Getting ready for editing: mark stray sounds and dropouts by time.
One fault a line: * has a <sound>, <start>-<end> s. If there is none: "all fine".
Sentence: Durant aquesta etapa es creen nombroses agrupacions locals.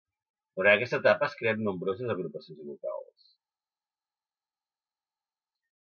all fine